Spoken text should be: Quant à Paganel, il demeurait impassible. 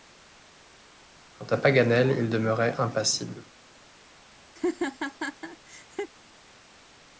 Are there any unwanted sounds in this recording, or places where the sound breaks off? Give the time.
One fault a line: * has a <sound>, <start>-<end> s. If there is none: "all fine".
* has a laugh, 4.6-6.1 s